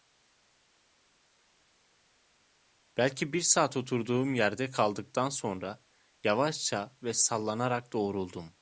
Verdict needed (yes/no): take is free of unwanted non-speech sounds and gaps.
yes